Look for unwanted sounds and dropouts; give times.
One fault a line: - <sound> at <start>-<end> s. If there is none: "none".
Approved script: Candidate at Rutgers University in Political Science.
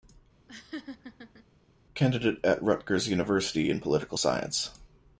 - laugh at 0.5-1.4 s